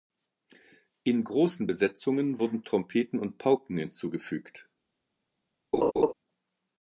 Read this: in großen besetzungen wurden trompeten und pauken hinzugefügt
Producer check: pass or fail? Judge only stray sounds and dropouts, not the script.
fail